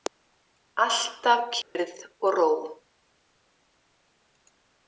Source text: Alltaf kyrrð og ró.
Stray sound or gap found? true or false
true